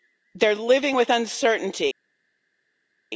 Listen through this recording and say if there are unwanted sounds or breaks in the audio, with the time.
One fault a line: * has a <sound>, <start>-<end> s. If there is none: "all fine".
all fine